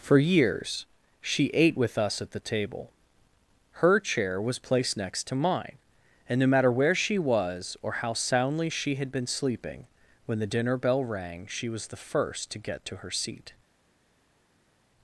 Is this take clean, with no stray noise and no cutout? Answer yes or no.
yes